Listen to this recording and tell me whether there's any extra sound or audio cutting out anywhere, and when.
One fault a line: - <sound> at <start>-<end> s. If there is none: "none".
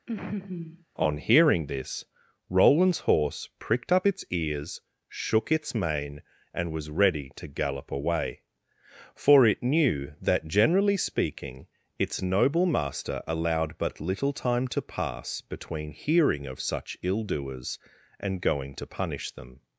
- laugh at 0.1-0.8 s